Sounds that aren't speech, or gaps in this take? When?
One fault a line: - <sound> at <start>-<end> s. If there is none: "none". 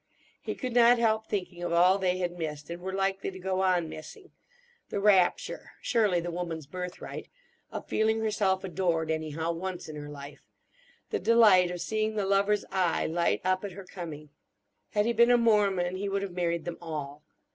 none